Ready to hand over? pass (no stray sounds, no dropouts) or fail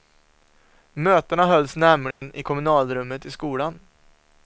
fail